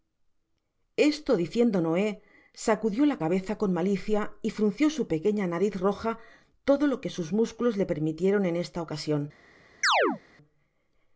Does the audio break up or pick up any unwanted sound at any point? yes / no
yes